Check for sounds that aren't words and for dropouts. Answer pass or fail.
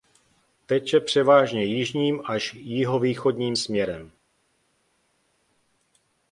pass